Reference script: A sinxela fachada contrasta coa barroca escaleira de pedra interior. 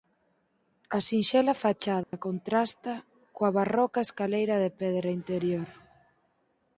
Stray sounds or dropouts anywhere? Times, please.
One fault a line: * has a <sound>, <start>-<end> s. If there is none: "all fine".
* has a dropout, 2.0-2.1 s